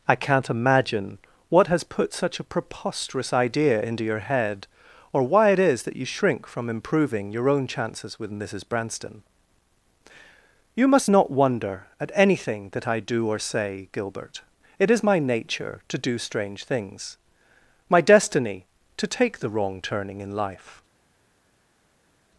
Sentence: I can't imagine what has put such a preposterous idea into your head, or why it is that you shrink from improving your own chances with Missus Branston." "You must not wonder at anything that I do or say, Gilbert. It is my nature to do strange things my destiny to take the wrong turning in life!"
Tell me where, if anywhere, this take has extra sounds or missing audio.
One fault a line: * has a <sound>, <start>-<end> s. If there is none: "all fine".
all fine